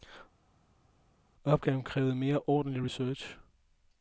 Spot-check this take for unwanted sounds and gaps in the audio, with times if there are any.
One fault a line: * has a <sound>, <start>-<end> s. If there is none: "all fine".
all fine